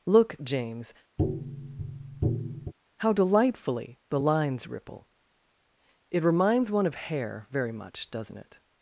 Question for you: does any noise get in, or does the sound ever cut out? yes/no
yes